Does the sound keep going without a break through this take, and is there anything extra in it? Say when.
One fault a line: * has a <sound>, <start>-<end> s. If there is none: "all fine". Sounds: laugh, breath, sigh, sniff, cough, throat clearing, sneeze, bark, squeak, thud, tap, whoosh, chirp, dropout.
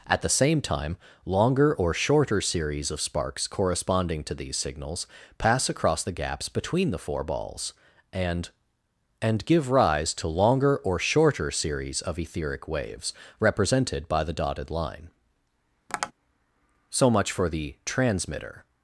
* has a tap, 15.9-16.1 s